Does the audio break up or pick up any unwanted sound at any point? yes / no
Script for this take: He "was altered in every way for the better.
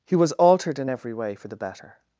no